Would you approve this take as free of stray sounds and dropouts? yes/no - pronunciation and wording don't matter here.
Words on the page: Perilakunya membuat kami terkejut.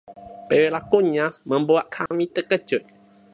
no